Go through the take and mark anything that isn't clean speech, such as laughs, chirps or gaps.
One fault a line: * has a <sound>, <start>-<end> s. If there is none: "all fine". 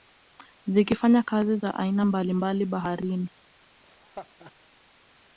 * has a laugh, 3.8-4.5 s